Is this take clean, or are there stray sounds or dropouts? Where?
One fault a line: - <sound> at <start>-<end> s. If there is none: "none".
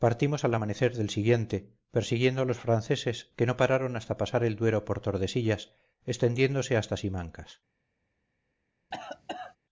- cough at 8.9-9.6 s